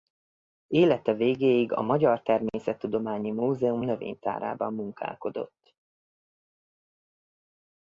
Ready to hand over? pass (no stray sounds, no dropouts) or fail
pass